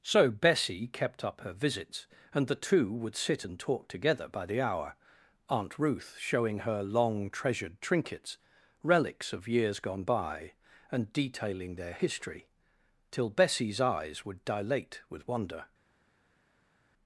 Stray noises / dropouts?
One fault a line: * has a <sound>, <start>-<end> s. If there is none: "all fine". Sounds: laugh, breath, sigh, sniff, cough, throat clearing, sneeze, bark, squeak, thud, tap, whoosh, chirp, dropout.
all fine